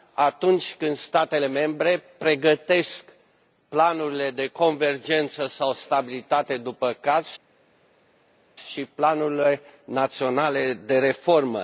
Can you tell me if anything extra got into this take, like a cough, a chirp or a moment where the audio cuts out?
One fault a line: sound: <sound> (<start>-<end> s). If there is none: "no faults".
no faults